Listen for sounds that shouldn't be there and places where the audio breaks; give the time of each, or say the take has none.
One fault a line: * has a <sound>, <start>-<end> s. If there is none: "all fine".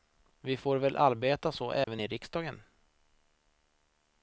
* has a dropout, 1.8-1.9 s